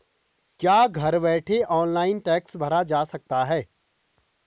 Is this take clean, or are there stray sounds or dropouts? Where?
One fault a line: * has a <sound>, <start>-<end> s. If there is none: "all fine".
all fine